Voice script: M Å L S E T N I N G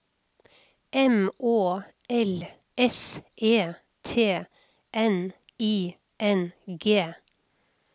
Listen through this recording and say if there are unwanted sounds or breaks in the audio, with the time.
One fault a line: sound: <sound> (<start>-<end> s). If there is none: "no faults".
no faults